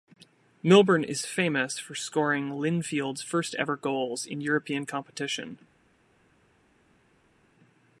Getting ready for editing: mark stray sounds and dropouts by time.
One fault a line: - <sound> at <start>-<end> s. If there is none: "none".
none